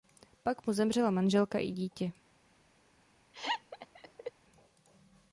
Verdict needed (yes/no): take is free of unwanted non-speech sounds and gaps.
no